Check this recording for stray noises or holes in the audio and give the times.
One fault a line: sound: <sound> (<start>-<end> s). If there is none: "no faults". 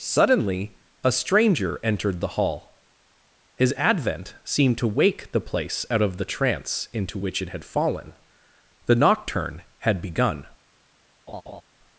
sound: laugh (11.3-11.6 s)